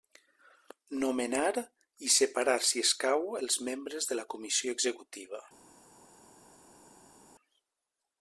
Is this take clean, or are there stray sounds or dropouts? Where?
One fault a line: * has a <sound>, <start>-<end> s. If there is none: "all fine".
all fine